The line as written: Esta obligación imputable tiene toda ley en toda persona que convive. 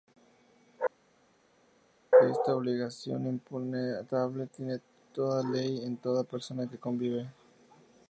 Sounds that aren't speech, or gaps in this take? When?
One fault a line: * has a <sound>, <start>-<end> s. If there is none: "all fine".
all fine